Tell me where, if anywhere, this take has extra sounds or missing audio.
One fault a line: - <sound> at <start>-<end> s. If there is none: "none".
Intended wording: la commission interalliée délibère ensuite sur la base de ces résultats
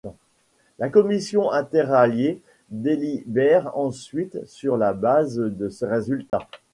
- dropout at 6.3-6.3 s